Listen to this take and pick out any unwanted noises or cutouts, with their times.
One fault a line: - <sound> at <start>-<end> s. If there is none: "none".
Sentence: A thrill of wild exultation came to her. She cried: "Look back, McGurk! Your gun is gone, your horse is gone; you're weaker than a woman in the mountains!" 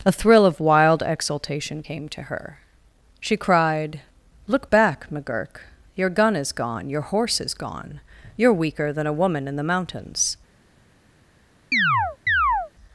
- chirp at 11.7-12.7 s